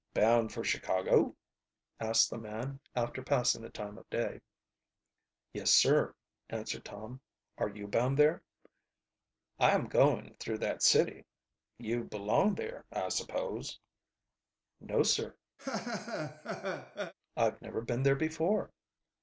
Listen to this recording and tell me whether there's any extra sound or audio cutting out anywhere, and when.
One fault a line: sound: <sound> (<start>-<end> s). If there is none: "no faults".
sound: laugh (15.6-17.1 s)